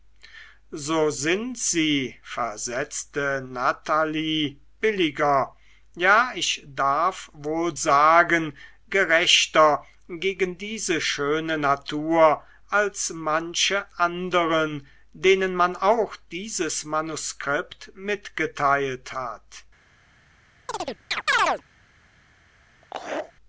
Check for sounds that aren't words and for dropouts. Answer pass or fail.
fail